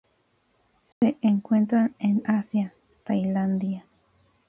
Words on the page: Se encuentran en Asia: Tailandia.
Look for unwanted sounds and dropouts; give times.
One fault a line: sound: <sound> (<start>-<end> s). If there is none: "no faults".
sound: dropout (0.9-1.0 s)